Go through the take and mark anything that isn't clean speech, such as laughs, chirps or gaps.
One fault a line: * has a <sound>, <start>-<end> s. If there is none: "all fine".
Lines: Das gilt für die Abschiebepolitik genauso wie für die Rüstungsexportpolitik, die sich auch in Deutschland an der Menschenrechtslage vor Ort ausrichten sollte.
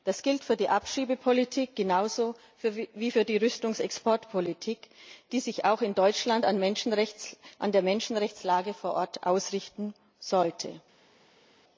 all fine